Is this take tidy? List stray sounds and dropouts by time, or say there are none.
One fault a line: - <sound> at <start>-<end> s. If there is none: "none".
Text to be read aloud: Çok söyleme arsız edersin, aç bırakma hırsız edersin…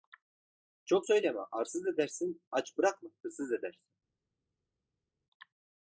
none